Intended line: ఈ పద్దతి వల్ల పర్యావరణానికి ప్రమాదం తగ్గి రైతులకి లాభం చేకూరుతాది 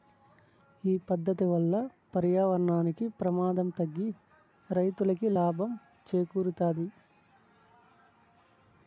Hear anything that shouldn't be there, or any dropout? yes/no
no